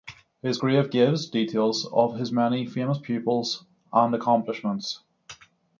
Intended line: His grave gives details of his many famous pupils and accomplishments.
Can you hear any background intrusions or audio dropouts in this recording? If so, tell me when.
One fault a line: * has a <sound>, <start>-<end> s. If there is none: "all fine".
all fine